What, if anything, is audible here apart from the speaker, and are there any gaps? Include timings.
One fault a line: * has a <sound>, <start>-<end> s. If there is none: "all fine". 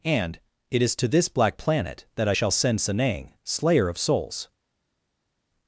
all fine